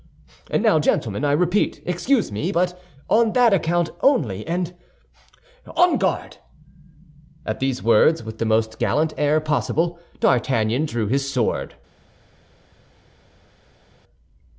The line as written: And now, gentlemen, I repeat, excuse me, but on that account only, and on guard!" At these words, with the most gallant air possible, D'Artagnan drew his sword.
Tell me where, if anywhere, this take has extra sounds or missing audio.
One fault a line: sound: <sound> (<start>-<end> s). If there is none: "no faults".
no faults